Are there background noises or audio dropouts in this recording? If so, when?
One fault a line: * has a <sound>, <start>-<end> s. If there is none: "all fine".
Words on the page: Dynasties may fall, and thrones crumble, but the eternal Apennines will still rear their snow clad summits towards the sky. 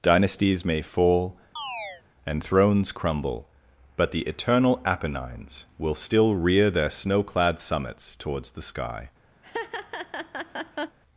* has a chirp, 1.6-2.0 s
* has a laugh, 9.4-11.0 s